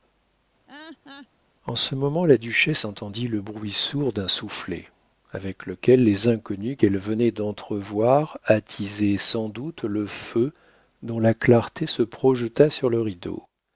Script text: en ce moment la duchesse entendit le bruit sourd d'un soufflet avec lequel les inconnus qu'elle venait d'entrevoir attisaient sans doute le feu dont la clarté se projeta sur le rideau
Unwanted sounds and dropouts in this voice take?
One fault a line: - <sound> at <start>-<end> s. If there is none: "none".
- laugh at 0.7-1.3 s